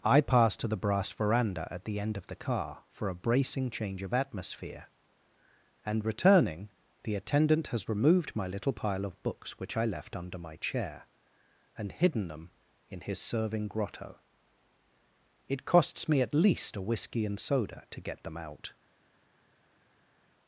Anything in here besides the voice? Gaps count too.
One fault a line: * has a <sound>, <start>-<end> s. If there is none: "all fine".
all fine